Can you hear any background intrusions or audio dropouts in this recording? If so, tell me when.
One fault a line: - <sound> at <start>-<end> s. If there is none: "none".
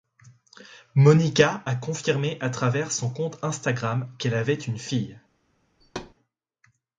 - thud at 5.8-6.1 s